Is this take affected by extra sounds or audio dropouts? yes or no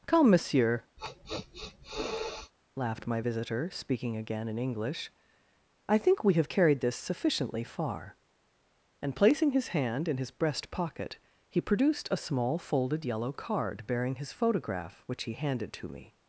yes